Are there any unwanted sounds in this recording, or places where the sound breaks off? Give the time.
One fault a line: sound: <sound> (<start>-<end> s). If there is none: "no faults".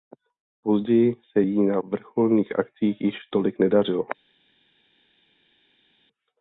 no faults